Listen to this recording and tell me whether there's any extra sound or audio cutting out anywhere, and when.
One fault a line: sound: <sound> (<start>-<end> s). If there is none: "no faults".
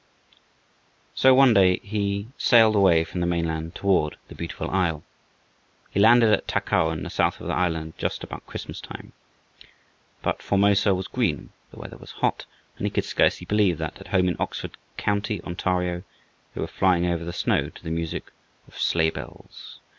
no faults